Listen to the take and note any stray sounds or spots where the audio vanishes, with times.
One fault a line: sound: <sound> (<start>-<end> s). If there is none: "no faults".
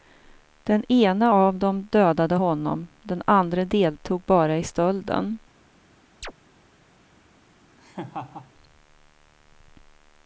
sound: chirp (6.2-6.3 s)
sound: laugh (7.8-8.5 s)